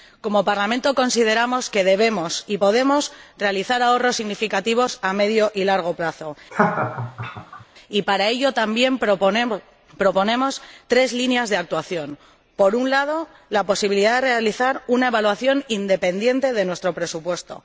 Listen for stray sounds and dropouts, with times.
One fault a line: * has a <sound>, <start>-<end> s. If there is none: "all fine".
* has a laugh, 6.5-7.6 s